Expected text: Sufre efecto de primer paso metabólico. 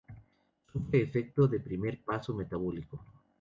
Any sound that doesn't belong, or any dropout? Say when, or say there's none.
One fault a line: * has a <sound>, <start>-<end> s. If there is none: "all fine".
all fine